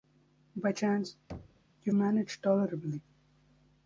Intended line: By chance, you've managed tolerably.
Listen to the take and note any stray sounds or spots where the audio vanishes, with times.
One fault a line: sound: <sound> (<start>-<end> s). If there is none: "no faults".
sound: thud (1.3-1.7 s)